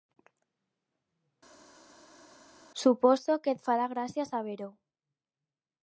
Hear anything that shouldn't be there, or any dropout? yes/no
no